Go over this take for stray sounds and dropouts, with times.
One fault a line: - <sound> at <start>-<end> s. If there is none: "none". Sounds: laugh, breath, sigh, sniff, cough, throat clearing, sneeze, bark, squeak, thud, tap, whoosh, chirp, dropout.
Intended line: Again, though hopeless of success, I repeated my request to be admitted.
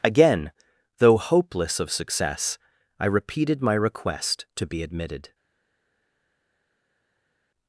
none